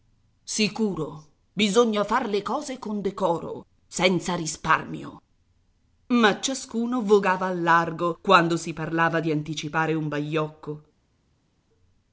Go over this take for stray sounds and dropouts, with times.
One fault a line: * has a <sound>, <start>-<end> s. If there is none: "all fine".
all fine